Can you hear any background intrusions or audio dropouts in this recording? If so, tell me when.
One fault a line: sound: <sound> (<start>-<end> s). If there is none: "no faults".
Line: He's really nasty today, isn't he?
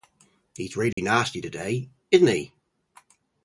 sound: dropout (0.9-1.0 s)